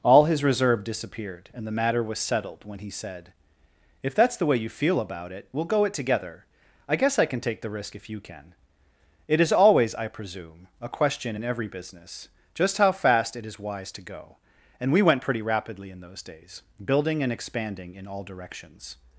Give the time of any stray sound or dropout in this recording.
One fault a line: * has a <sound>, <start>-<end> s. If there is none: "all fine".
all fine